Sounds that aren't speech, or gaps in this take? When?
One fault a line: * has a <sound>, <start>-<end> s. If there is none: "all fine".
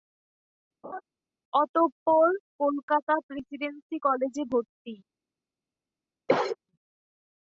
* has a laugh, 0.8-1.0 s
* has a cough, 6.3-6.6 s